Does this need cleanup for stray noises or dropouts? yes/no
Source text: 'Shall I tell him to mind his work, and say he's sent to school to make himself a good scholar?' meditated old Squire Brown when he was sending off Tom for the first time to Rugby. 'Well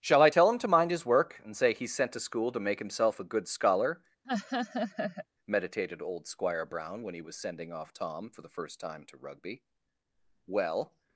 yes